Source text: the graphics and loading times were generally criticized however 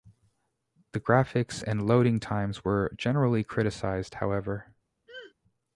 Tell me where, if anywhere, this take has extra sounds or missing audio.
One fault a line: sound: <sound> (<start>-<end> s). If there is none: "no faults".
sound: throat clearing (5.1-5.3 s)